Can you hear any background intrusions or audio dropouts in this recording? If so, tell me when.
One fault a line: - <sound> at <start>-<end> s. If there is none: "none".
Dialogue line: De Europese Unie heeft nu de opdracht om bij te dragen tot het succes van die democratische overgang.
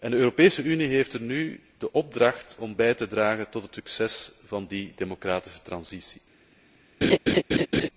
- laugh at 7.0-7.9 s